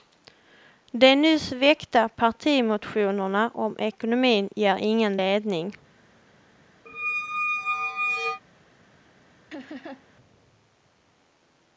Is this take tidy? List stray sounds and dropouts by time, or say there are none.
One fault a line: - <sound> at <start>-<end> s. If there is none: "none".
- squeak at 6.9-8.4 s
- laugh at 9.5-10.1 s